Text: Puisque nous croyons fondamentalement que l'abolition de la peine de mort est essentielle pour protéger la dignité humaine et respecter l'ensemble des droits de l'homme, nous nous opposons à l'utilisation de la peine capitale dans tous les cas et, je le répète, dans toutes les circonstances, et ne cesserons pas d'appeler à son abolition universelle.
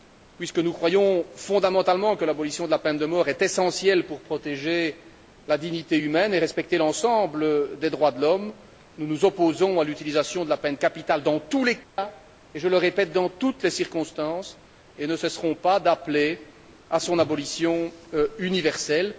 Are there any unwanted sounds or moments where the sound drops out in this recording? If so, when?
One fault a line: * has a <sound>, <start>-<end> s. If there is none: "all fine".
* has a dropout, 11.8-12.0 s